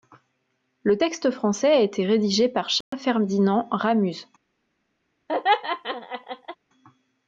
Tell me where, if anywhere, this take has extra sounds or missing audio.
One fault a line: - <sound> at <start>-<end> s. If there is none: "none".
- dropout at 2.8-2.9 s
- laugh at 5.3-6.6 s